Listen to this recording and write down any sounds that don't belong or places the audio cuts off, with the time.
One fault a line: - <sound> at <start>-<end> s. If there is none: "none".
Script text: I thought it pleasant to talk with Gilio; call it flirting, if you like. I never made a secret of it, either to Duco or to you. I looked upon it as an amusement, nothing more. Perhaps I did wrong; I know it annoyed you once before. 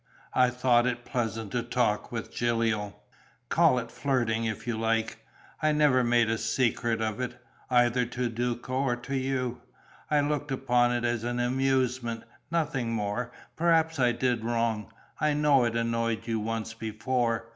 none